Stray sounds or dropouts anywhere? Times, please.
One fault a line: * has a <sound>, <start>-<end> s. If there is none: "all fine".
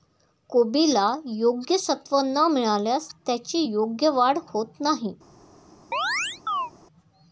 * has a chirp, 5.9-6.7 s